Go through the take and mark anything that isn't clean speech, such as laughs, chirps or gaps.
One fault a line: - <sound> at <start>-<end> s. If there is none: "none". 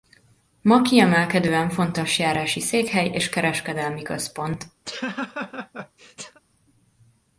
- laugh at 4.9-6.4 s